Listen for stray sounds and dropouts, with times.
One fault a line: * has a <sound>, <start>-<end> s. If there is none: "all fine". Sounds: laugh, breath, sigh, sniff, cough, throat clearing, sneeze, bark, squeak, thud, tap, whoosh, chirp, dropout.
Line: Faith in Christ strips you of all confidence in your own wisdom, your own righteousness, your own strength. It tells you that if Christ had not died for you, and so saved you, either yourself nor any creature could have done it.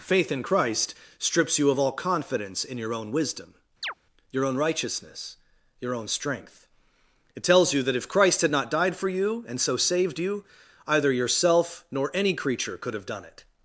* has a chirp, 3.8-3.9 s